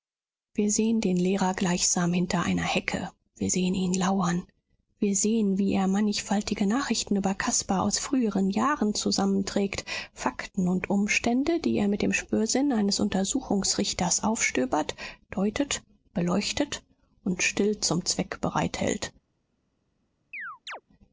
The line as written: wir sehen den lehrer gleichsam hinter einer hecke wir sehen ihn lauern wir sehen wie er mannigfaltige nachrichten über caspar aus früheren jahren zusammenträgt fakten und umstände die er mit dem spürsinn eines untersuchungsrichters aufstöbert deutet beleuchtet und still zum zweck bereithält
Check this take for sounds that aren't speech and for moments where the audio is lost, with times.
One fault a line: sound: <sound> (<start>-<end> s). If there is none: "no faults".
sound: chirp (20.3-20.8 s)